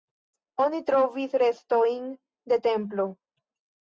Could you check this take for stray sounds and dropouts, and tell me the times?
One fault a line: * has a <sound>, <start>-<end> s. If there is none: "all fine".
all fine